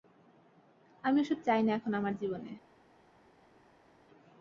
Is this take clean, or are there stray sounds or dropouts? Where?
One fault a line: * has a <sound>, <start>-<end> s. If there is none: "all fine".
all fine